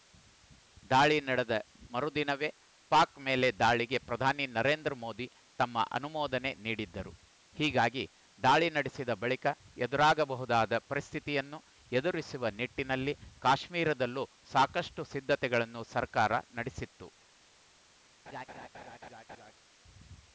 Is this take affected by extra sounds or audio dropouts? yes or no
yes